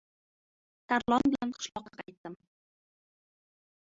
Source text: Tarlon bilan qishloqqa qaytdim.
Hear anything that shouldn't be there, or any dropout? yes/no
no